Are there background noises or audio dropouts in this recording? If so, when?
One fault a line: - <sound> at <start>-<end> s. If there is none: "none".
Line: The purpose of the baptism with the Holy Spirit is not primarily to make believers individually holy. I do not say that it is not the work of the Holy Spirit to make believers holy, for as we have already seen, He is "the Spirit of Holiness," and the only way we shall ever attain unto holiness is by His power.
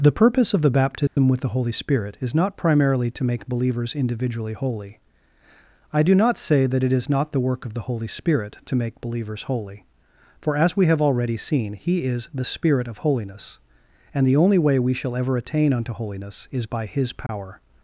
- dropout at 1.1-1.2 s
- dropout at 17.3-17.3 s